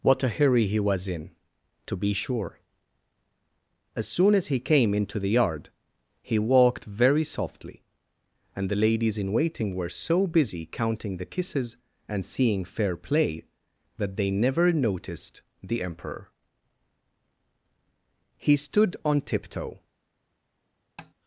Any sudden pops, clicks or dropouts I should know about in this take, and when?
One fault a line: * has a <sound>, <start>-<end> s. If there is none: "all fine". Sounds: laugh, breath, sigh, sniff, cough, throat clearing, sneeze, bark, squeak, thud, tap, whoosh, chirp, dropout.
* has a tap, 21.0-21.1 s